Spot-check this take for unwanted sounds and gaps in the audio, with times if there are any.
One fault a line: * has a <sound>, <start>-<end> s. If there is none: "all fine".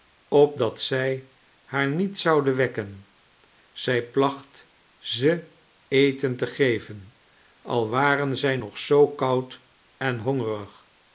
all fine